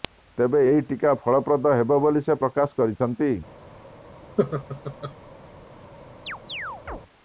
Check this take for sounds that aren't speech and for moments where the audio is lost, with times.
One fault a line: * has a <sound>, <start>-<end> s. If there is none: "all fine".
* has a laugh, 4.4-5.1 s
* has a chirp, 6.3-7.0 s